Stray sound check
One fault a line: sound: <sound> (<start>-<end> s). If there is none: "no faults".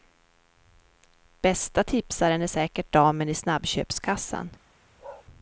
sound: bark (5.0-5.3 s)